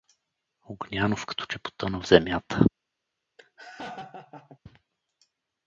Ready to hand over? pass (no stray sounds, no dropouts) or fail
fail